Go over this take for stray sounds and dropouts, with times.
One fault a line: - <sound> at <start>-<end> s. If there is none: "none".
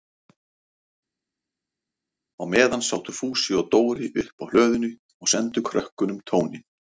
none